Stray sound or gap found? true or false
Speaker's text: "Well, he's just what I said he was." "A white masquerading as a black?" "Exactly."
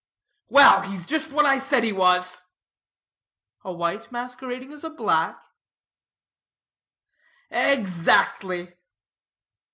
false